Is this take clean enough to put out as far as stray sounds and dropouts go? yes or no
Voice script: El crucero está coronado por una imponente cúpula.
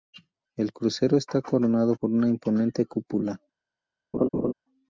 no